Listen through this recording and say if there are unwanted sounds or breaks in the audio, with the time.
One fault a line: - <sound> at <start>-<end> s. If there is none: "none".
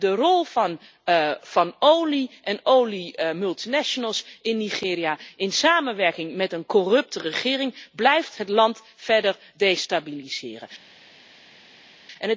none